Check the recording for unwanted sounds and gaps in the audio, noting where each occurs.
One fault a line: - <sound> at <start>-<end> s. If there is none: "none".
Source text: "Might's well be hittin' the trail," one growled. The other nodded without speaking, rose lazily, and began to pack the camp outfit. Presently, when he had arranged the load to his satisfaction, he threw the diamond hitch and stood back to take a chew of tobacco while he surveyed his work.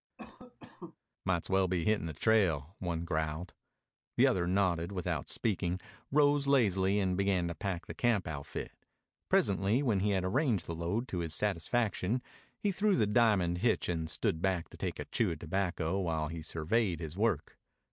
- cough at 0.2-1.0 s